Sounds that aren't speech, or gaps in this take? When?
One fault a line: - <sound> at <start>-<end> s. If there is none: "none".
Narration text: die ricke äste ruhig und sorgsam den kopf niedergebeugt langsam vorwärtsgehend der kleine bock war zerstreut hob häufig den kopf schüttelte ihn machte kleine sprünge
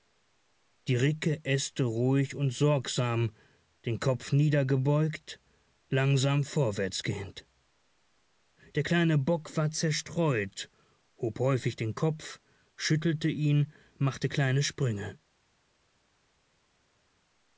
none